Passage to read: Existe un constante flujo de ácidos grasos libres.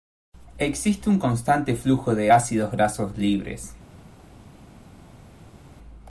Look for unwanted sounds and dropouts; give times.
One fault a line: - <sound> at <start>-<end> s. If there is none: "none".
none